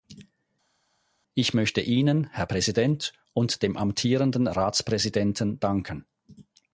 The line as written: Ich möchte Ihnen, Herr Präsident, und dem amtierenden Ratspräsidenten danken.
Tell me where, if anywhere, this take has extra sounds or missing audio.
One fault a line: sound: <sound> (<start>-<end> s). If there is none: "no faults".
no faults